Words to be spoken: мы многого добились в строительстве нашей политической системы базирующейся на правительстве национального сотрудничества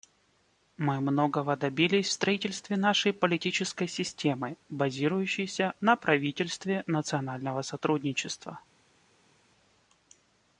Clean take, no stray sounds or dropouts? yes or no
yes